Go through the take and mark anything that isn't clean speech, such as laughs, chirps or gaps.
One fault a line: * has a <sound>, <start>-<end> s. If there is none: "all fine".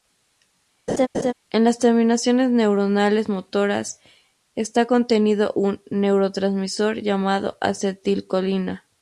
* has a laugh, 0.9-1.3 s